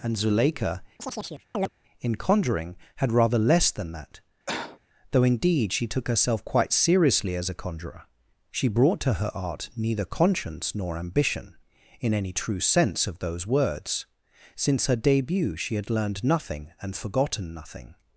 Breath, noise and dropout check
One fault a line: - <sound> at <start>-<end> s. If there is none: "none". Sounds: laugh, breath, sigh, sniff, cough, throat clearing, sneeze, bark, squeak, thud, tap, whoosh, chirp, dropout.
- chirp at 1.0-1.7 s
- cough at 4.5-4.8 s